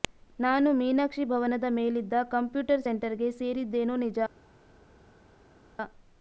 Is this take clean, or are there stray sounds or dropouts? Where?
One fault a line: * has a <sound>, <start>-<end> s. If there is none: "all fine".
all fine